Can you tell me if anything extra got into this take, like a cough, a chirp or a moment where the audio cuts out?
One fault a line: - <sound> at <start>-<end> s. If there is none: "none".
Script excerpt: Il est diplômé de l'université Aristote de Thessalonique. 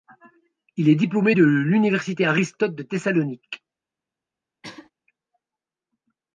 - throat clearing at 4.6-4.9 s